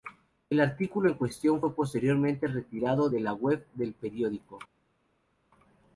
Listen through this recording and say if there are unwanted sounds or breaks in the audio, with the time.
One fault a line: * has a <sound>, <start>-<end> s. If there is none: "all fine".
all fine